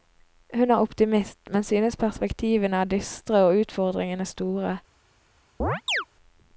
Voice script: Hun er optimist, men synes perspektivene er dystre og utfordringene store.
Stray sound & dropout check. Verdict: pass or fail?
fail